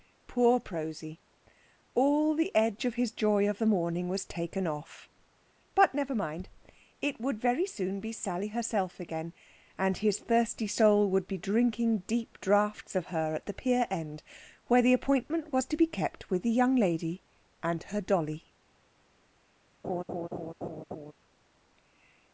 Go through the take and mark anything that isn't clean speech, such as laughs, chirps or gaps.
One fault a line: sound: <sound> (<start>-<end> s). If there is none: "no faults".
sound: laugh (19.8-21.1 s)